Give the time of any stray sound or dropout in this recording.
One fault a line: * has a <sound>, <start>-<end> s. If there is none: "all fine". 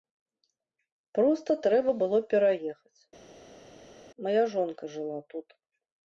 all fine